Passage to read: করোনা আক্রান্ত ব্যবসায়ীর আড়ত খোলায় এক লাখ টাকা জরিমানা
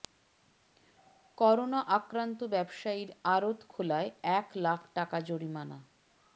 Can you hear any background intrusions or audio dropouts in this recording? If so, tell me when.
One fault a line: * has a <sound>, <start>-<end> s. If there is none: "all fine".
all fine